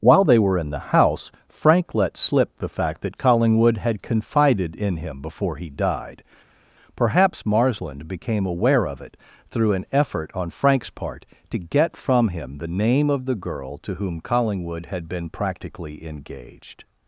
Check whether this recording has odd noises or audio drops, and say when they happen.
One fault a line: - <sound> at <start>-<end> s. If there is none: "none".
none